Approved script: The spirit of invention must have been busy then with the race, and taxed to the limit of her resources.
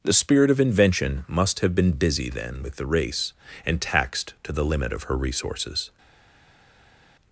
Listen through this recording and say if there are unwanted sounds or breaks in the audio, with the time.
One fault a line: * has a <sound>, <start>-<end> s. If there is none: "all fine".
all fine